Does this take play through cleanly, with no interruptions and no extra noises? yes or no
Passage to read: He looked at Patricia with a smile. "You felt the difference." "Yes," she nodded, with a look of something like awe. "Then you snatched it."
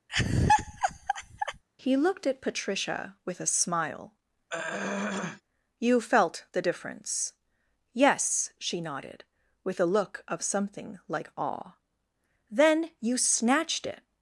no